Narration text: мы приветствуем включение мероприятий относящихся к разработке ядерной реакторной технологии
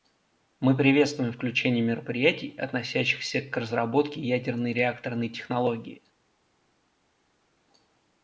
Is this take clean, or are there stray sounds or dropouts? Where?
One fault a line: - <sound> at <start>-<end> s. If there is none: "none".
none